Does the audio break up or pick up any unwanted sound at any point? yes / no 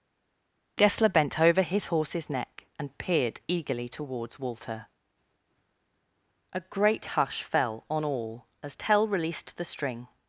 no